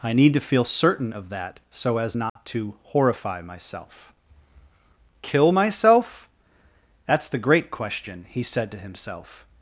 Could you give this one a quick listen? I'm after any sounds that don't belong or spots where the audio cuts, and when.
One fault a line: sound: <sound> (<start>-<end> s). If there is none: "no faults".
sound: dropout (2.3-2.4 s)